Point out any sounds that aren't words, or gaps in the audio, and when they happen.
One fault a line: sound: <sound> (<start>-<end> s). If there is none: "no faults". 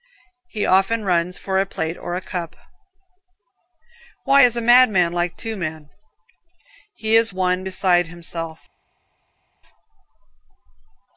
no faults